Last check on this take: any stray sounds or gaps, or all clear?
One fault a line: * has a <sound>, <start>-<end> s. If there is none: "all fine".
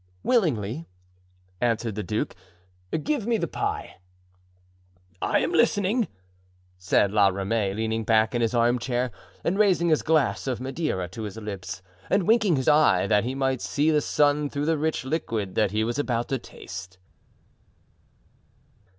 all fine